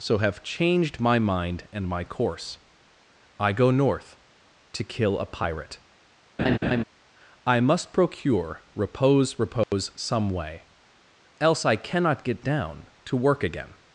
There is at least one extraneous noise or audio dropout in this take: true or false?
true